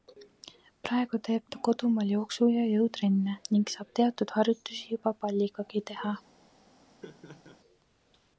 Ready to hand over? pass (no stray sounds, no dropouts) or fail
fail